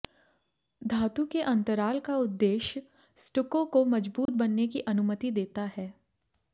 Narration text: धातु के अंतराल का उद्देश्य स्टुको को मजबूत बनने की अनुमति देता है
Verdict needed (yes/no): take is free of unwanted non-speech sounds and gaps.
no